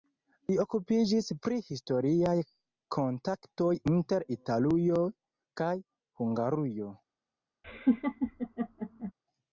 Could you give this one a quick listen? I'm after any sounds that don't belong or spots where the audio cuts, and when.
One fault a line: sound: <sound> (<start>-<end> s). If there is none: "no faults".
sound: laugh (7.6-9.1 s)